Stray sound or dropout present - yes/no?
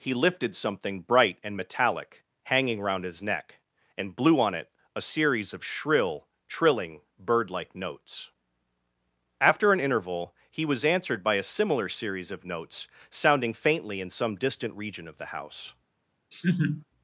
yes